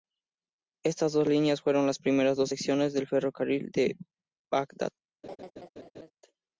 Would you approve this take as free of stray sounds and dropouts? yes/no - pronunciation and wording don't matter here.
no